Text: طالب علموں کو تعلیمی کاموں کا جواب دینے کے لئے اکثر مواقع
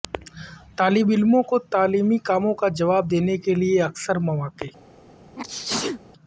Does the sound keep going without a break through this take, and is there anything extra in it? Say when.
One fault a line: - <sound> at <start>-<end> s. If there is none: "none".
- sneeze at 5.4-6.0 s